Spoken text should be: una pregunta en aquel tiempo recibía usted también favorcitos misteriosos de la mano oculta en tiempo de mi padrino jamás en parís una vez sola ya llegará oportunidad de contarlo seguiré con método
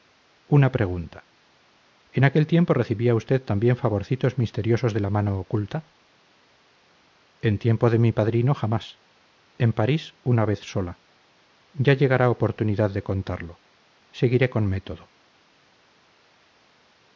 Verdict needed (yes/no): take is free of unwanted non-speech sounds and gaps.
yes